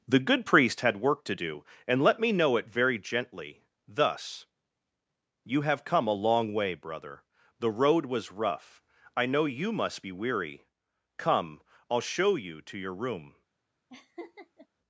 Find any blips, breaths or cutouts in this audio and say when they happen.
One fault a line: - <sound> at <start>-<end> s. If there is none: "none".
- laugh at 13.9-14.7 s